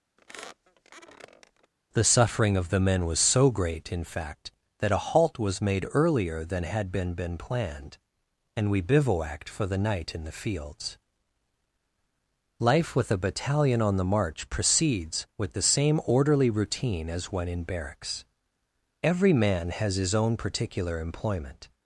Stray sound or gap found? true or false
true